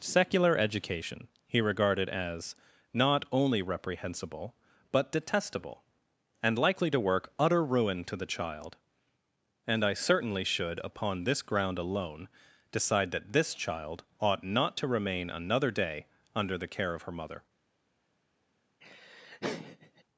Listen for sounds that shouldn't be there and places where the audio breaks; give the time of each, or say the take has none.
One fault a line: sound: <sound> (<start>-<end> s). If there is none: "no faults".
sound: laugh (18.8-20.0 s)